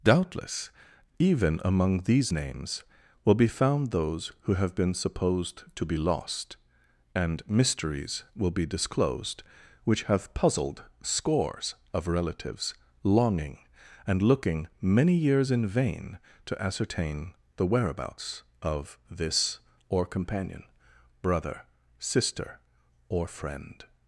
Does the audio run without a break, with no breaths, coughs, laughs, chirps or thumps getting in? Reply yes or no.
yes